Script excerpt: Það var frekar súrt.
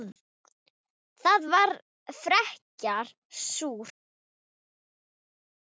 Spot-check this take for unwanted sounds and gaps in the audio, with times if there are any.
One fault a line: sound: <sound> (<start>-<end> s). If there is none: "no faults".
no faults